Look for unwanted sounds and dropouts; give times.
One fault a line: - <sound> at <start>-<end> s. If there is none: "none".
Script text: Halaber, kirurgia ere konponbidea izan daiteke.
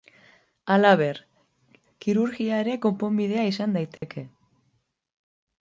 - dropout at 4.0-4.0 s